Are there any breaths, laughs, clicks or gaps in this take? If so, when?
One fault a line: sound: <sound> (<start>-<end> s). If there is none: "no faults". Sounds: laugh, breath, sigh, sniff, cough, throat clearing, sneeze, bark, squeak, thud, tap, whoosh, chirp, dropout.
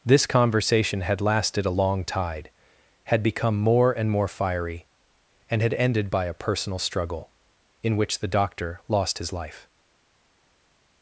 no faults